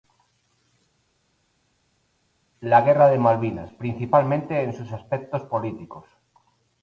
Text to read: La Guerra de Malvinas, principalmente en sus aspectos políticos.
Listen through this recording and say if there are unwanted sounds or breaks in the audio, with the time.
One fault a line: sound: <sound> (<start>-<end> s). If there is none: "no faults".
no faults